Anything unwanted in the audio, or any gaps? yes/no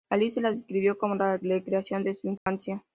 yes